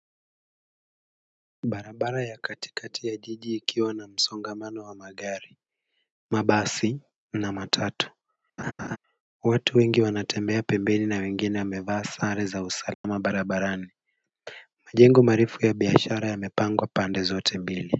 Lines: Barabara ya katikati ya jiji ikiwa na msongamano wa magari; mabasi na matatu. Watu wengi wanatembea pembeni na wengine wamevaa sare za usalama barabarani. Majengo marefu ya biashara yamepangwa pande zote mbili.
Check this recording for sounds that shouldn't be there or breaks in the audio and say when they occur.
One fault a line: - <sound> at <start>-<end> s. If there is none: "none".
- laugh at 8.6-9.0 s
- dropout at 12.9-13.0 s